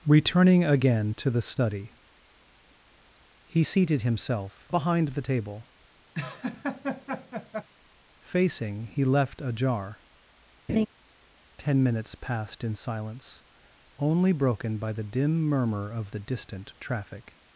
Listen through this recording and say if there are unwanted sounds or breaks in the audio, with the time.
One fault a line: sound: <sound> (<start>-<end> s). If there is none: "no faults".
sound: laugh (6.1-7.7 s)
sound: laugh (10.7-10.9 s)